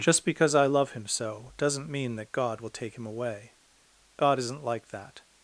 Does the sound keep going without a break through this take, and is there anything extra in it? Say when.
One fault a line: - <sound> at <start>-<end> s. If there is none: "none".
none